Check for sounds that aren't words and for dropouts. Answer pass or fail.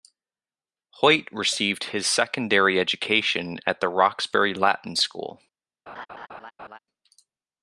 fail